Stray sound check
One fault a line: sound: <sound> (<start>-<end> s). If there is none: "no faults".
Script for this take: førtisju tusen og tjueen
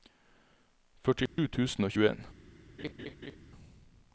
sound: dropout (1.3-1.4 s)
sound: laugh (2.8-3.4 s)